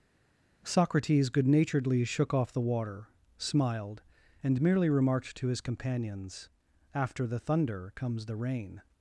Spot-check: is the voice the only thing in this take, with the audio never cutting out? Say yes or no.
yes